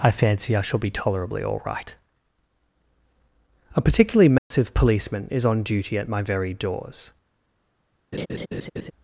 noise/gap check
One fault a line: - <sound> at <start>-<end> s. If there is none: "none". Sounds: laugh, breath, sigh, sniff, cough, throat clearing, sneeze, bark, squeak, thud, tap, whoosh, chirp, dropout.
- dropout at 4.4-4.5 s
- laugh at 8.1-8.9 s